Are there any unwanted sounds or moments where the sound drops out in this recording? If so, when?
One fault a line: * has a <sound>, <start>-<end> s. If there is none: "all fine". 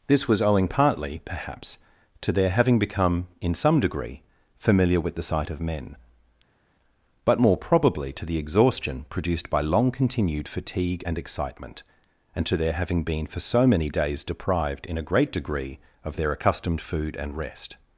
all fine